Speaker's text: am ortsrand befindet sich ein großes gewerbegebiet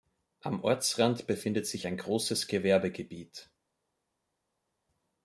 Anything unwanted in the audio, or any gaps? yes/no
no